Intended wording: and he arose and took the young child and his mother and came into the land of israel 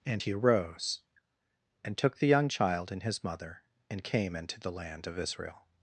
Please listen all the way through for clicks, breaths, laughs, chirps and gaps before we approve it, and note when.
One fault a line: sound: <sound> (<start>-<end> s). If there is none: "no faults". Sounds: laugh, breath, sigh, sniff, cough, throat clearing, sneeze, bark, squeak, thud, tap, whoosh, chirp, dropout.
no faults